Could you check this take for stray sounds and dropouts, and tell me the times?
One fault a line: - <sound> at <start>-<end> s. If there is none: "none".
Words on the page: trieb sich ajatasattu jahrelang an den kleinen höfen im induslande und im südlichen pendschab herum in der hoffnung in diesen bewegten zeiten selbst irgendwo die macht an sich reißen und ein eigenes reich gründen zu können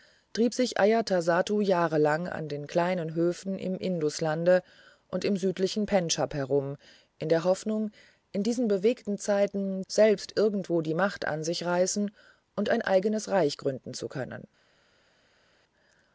none